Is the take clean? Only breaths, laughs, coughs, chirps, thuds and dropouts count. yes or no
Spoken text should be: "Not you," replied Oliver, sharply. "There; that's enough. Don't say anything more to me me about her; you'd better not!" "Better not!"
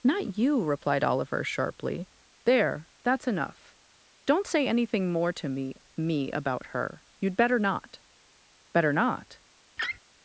no